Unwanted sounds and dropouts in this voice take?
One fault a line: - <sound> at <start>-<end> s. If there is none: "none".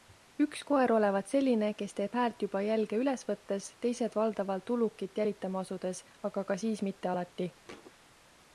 - thud at 7.6-7.9 s